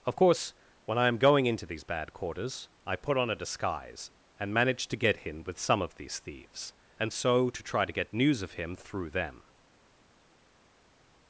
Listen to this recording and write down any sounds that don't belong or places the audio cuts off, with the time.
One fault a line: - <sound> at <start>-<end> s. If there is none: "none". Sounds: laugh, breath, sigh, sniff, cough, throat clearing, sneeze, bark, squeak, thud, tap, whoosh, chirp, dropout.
none